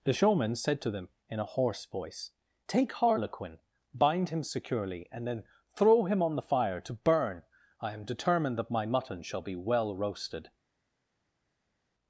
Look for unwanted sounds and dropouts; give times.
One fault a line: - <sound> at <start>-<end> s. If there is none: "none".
none